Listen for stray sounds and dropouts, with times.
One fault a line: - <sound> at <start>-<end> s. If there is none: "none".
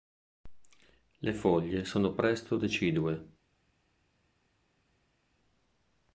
none